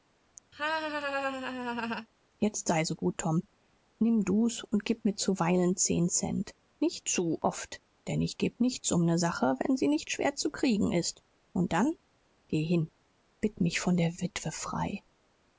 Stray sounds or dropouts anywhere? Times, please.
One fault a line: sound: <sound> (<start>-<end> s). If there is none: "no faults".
sound: laugh (0.5-2.1 s)